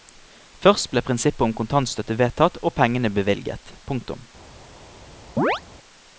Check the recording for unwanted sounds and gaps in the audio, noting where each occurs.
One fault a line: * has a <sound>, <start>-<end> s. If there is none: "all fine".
* has a chirp, 5.4-5.6 s